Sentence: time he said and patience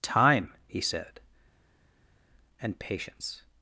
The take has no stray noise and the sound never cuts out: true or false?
true